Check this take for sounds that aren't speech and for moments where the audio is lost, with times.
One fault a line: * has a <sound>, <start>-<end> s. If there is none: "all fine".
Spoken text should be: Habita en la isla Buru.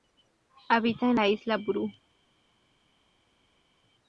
all fine